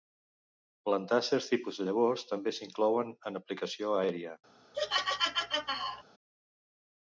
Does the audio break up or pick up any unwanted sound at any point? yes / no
yes